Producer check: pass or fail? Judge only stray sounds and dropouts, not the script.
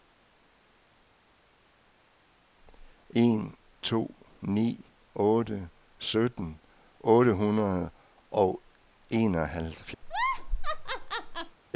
fail